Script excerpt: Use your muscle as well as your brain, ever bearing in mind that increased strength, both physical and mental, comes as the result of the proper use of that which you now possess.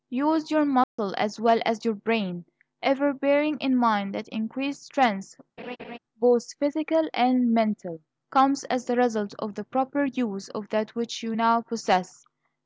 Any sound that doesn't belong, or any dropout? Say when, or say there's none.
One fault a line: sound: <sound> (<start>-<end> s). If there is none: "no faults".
sound: dropout (0.8-1.0 s)
sound: laugh (5.6-6.0 s)